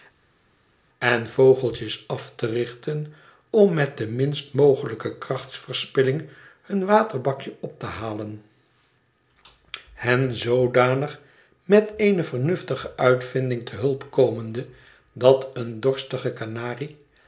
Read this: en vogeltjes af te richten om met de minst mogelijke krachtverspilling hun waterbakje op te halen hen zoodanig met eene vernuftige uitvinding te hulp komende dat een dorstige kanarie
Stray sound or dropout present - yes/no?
no